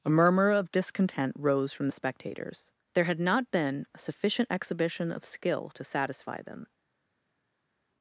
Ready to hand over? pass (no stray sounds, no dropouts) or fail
pass